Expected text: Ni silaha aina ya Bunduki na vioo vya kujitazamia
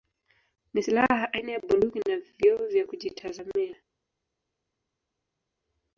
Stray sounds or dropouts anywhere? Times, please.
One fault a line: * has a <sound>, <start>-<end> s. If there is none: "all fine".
all fine